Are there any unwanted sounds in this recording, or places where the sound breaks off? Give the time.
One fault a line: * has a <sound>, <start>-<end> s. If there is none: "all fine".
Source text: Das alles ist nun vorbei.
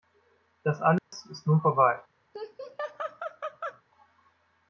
* has a dropout, 1.0-1.1 s
* has a laugh, 2.3-3.8 s